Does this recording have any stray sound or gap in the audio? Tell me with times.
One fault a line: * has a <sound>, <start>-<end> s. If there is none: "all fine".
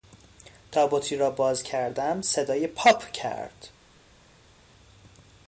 all fine